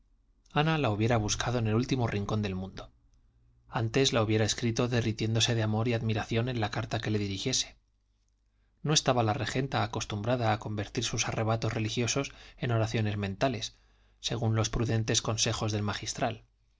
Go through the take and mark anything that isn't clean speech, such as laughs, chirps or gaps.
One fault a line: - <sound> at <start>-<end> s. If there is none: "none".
none